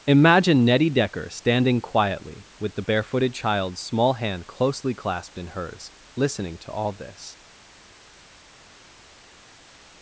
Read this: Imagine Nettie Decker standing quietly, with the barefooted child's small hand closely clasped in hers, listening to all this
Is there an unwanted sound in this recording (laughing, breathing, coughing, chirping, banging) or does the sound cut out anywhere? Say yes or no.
no